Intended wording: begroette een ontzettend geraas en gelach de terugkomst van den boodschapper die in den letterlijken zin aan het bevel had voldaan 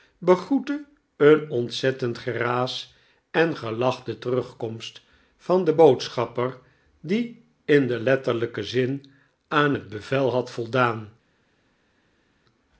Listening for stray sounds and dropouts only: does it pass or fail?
pass